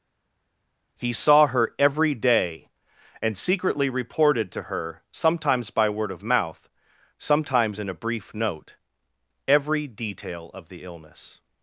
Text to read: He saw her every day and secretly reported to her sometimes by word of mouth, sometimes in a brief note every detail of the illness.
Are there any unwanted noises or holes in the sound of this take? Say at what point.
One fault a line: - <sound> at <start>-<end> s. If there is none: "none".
none